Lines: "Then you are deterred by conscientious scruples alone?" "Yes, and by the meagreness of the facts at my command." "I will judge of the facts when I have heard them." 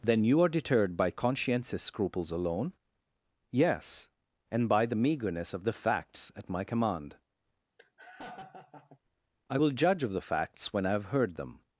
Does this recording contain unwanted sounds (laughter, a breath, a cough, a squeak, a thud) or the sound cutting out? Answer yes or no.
yes